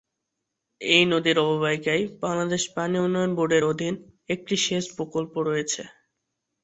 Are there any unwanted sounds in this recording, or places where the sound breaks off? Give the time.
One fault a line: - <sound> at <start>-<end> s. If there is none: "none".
none